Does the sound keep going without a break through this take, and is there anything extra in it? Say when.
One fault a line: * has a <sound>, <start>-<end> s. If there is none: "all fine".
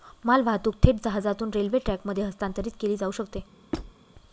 * has a squeak, 3.7-3.9 s